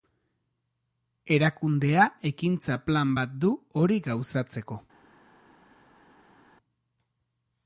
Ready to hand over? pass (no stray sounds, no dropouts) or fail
pass